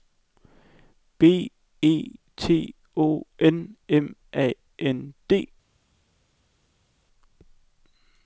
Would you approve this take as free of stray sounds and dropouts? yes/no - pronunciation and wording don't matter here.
yes